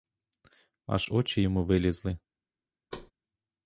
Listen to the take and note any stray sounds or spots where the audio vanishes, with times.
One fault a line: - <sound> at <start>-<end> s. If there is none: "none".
- thud at 2.9-3.1 s